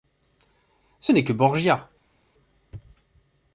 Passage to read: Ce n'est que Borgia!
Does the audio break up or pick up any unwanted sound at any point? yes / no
no